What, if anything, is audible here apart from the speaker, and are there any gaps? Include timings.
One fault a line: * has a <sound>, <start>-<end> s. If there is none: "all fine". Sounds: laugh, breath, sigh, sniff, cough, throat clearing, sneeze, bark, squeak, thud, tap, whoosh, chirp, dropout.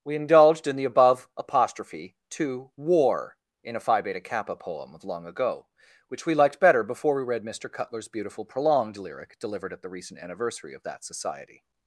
all fine